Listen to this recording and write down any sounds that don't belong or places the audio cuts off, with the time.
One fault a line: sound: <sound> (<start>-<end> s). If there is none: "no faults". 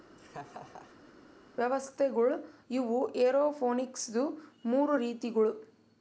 sound: laugh (0.1-1.1 s)